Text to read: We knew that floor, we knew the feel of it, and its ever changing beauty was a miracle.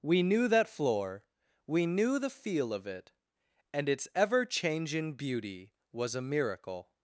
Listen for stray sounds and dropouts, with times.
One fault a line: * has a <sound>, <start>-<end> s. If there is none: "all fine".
all fine